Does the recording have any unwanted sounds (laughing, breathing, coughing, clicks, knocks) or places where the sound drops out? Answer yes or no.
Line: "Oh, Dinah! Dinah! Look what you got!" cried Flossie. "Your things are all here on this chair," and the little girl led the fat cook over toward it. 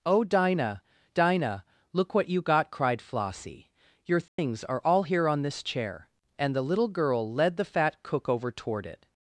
yes